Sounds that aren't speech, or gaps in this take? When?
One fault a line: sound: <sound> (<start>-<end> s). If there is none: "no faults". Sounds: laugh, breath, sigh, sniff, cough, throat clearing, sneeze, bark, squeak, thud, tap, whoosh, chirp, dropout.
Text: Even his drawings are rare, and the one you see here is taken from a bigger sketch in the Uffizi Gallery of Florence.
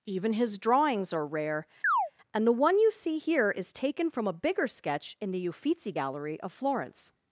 sound: chirp (1.8-2.1 s)